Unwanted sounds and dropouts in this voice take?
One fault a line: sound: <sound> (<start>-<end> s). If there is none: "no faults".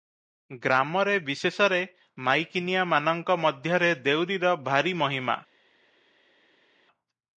no faults